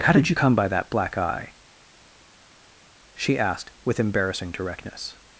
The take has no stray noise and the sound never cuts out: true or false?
true